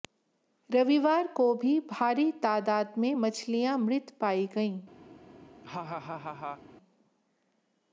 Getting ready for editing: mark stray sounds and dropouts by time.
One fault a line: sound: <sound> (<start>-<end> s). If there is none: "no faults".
sound: laugh (5.6-6.6 s)